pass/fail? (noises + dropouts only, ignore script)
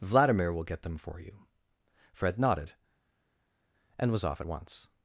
pass